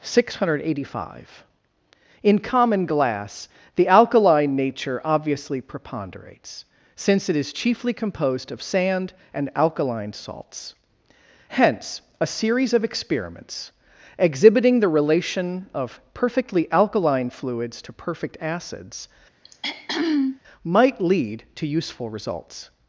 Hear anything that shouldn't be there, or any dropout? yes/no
yes